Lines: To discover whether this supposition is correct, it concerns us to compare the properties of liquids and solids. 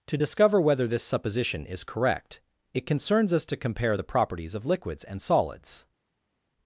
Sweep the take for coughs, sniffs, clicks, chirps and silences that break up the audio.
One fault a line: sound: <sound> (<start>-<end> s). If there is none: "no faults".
no faults